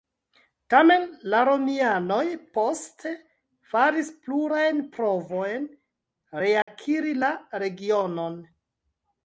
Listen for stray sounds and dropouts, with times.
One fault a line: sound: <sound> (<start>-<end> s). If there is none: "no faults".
sound: dropout (6.6-6.7 s)